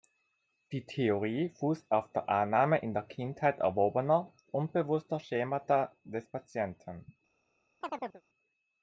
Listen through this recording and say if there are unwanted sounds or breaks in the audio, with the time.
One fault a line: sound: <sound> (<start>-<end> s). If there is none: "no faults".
sound: chirp (7.8-8.2 s)